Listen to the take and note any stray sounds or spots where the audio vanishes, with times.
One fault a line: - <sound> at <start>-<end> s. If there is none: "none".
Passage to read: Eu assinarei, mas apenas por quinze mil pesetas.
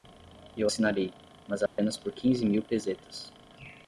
- dropout at 1.7-1.8 s